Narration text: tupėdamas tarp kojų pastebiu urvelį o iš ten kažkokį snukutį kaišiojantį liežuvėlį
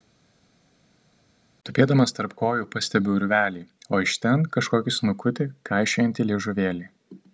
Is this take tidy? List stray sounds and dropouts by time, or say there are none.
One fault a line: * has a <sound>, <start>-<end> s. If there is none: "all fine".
all fine